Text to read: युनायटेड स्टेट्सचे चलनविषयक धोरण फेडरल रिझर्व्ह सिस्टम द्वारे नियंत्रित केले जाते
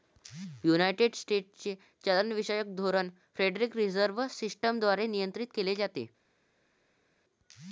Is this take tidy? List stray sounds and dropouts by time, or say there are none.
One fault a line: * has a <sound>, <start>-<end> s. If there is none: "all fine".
all fine